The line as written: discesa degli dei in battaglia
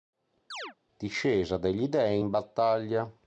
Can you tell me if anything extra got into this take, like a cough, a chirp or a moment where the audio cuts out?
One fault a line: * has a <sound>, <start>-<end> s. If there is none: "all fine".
* has a chirp, 0.5-0.7 s